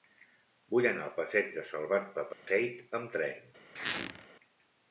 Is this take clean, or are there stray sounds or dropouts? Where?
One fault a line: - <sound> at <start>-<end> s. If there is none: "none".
- dropout at 2.3-2.5 s
- squeak at 3.8-4.3 s